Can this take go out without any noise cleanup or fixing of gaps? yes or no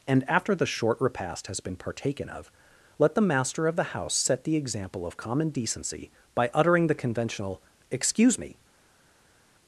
yes